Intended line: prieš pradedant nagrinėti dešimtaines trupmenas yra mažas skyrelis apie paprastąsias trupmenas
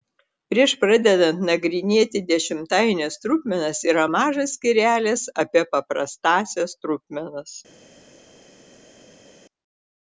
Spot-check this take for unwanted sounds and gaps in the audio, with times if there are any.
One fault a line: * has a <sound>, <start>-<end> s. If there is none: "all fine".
all fine